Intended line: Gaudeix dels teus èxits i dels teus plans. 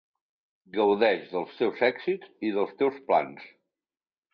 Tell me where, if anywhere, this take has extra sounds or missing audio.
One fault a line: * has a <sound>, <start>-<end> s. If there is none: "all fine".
all fine